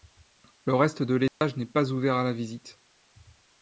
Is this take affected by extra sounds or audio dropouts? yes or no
yes